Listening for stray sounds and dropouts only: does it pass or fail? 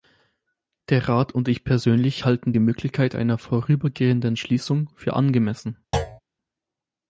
fail